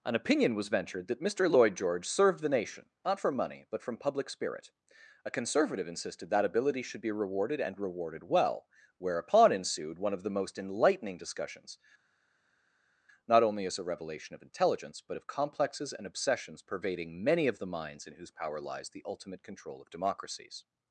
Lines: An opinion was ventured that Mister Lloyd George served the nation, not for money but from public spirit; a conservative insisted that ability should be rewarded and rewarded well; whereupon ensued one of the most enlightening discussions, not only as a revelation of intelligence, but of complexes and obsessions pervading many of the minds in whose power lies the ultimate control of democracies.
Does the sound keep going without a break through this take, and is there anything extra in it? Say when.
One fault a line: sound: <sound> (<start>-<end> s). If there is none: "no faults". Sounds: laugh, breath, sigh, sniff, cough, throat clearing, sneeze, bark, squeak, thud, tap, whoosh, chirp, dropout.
no faults